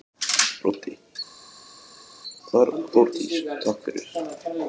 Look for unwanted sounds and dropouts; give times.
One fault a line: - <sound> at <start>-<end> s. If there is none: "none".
none